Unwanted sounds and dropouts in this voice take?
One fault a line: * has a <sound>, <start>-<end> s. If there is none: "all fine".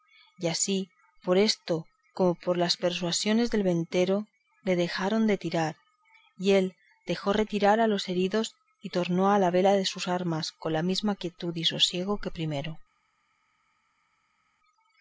all fine